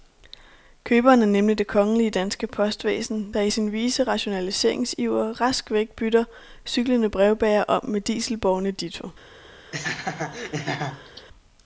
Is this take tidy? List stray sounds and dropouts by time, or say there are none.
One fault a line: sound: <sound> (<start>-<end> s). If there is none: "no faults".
sound: laugh (9.7-11.3 s)